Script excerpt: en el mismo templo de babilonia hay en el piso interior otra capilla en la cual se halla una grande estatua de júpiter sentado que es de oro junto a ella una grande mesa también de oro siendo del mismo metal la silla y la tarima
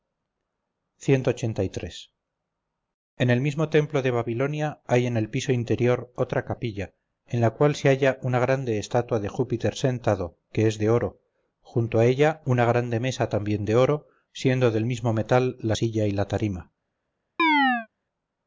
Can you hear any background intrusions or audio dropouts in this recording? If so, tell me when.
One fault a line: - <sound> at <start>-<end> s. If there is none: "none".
- chirp at 17.4-17.9 s